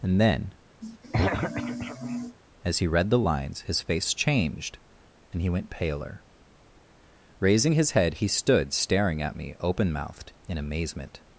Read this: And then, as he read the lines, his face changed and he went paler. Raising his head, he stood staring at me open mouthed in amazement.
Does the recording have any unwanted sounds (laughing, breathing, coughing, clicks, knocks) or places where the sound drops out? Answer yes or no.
yes